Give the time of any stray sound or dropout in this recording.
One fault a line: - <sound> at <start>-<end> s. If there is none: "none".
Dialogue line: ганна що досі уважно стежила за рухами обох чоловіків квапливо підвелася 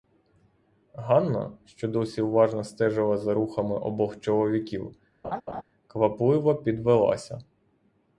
- laugh at 5.2-5.6 s